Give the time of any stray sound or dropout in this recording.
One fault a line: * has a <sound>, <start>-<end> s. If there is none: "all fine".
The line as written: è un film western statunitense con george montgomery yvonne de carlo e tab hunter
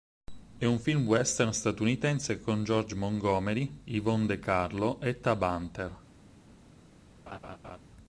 * has a laugh, 7.3-7.8 s